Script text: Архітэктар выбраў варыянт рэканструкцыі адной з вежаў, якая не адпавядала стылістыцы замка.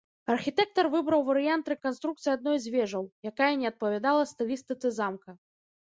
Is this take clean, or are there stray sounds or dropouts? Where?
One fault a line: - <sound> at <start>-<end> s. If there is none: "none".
none